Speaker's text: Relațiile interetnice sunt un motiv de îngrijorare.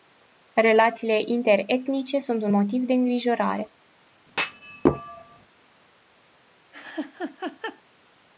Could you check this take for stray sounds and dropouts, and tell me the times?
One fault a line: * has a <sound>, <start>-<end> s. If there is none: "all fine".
* has a thud, 4.3-5.5 s
* has a laugh, 6.7-7.8 s